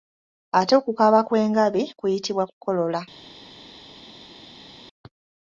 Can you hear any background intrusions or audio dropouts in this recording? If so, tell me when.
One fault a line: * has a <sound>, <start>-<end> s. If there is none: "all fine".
all fine